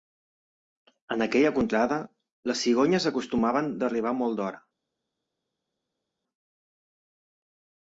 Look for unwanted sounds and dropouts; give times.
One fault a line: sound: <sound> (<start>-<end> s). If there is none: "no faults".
no faults